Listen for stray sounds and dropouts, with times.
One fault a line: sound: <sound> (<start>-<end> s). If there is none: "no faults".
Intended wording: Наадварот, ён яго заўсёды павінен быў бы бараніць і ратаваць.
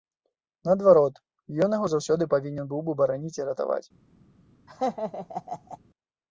sound: laugh (4.7-5.8 s)